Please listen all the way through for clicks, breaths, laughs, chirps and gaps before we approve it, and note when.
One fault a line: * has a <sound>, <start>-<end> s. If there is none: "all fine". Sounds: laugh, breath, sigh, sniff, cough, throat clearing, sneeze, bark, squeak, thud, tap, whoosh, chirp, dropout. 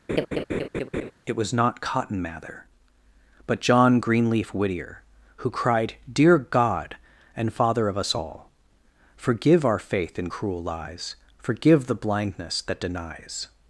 * has a laugh, 0.1-1.1 s